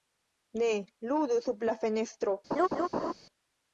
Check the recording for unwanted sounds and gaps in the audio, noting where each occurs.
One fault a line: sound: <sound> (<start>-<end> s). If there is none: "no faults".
sound: laugh (2.5-3.1 s)